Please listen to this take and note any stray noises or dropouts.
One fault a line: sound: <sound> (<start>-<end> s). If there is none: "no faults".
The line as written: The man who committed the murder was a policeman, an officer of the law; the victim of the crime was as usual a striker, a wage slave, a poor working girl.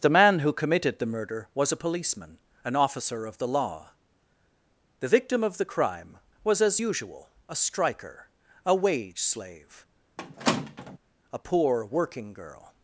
sound: squeak (10.2-11.0 s)